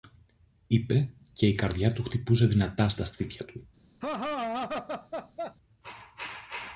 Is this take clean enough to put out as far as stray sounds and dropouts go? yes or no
no